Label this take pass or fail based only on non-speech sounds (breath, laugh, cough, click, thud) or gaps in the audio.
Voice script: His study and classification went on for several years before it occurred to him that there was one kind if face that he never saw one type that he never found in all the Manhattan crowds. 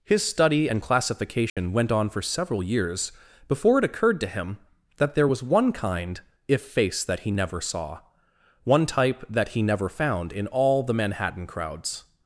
fail